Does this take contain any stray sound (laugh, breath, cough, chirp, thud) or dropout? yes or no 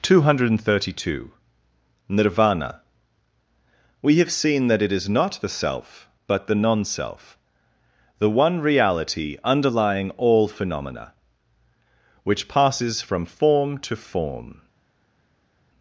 no